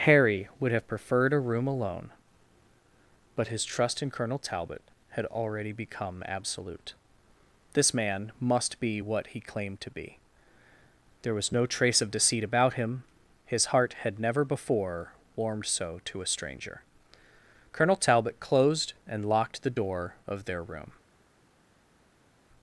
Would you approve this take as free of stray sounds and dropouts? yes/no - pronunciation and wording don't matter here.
yes